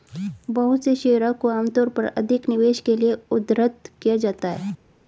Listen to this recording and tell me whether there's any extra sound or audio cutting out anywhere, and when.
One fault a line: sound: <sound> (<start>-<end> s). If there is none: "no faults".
no faults